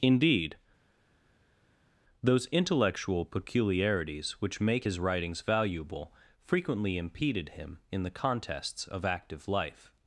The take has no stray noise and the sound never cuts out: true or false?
true